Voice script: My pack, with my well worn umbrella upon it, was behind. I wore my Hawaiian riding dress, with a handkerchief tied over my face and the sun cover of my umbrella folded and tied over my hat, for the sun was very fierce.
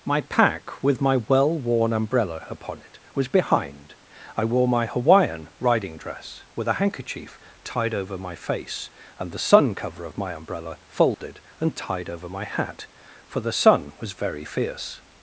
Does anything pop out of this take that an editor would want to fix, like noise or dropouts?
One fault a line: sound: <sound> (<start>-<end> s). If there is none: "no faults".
sound: dropout (11.1-11.2 s)